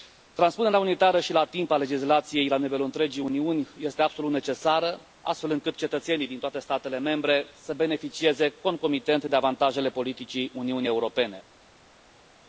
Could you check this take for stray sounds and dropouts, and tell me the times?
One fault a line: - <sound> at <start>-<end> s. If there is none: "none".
none